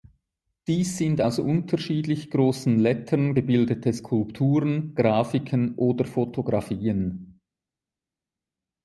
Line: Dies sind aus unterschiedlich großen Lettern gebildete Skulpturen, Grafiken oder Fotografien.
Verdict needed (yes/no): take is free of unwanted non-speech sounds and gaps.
yes